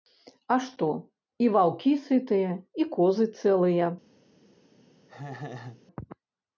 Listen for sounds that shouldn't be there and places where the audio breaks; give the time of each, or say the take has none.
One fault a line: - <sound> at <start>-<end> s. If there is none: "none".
- laugh at 5.1-5.8 s